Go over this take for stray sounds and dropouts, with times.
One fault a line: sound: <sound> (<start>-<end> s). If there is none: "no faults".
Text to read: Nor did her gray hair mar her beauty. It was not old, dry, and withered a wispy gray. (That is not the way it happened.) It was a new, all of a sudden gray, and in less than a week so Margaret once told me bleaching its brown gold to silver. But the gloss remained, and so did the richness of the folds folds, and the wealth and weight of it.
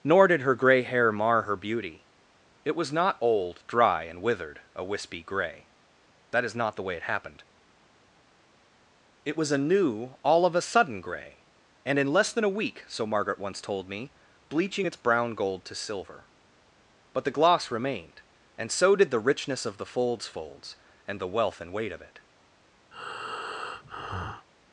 sound: breath (22.9-24.5 s)